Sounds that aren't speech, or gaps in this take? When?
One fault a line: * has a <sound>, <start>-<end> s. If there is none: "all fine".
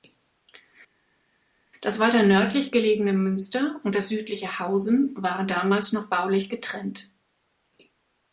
all fine